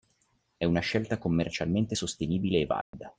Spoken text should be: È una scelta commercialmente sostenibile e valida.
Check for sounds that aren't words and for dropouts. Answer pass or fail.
fail